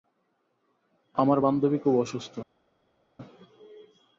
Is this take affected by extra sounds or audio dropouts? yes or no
no